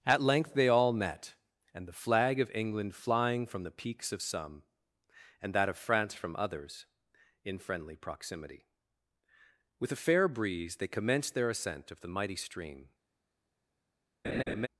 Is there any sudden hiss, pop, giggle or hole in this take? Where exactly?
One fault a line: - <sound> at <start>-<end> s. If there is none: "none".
- laugh at 14.2-14.7 s